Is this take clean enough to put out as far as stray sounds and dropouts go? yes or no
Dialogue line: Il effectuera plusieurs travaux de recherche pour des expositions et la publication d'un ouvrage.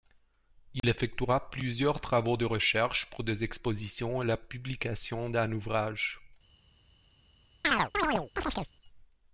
no